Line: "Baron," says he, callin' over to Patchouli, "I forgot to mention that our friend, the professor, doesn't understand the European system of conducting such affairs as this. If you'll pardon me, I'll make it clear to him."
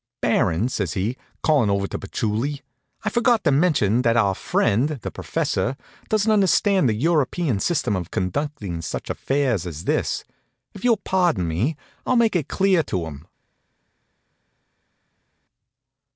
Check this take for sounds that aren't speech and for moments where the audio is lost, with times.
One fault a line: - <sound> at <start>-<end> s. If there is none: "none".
none